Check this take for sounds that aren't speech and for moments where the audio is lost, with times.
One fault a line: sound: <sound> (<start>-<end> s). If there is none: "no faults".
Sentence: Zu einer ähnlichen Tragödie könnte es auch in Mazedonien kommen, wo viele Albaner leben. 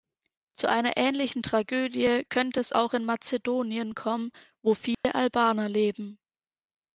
sound: dropout (4.9-5.0 s)